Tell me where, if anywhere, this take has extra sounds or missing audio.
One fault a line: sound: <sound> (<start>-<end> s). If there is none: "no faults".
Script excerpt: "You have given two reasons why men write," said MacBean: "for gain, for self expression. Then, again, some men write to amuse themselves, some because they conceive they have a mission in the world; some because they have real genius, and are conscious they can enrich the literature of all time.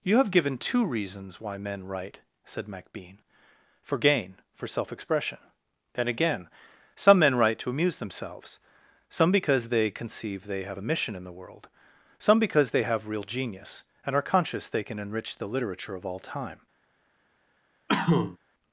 sound: cough (17.9-18.4 s)